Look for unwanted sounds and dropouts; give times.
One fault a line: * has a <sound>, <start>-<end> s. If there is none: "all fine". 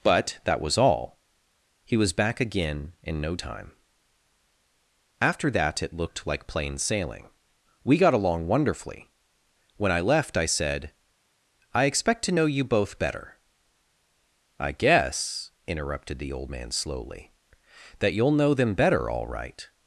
all fine